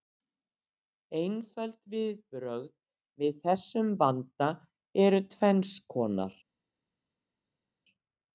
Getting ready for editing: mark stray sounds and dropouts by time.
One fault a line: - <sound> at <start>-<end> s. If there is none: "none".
none